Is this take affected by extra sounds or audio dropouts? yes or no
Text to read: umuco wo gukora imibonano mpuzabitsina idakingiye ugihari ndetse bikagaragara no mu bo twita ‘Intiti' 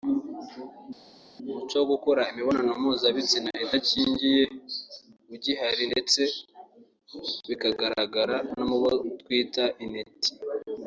no